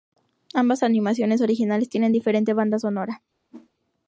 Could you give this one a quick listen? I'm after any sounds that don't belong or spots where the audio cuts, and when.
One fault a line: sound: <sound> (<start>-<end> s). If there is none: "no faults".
sound: whoosh (3.5-3.7 s)